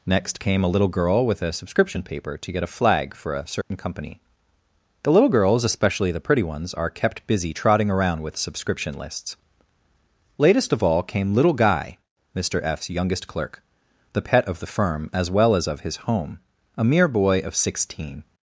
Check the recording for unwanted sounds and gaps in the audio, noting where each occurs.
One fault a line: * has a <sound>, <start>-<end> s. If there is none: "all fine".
* has a dropout, 3.6-3.7 s